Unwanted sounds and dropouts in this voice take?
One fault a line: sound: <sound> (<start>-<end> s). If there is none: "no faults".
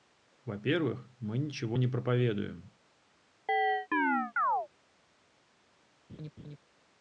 sound: chirp (3.5-4.7 s)
sound: laugh (6.1-6.6 s)